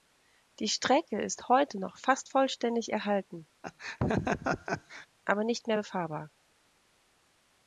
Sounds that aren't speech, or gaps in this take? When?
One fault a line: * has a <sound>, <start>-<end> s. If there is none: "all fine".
* has a laugh, 3.6-5.1 s